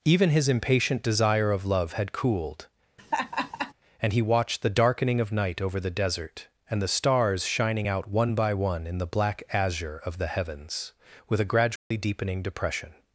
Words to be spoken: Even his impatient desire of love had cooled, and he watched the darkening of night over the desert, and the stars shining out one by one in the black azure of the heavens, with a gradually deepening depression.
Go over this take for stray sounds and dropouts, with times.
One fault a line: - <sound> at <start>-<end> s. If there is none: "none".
- laugh at 3.0-3.7 s
- dropout at 11.8-11.9 s